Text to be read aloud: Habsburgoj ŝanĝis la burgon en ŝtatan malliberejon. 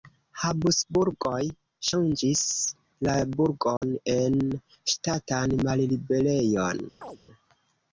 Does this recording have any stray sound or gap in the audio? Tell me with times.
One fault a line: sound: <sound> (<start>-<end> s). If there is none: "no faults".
sound: dropout (3.8-3.8 s)
sound: chirp (7.0-7.2 s)